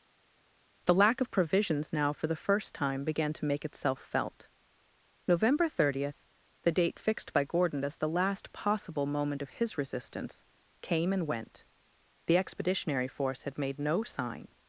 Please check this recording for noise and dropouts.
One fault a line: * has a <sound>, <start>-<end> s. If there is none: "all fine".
all fine